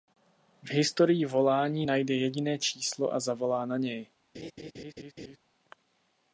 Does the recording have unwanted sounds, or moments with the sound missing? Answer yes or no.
yes